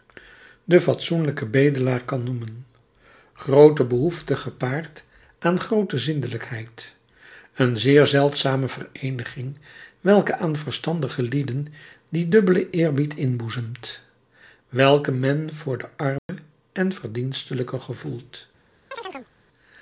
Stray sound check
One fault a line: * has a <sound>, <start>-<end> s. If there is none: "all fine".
* has a dropout, 16.2-16.3 s
* has a chirp, 18.9-19.3 s